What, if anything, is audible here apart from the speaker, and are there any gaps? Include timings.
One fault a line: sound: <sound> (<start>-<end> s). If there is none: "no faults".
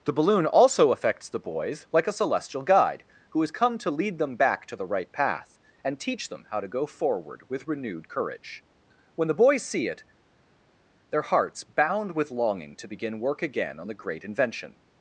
no faults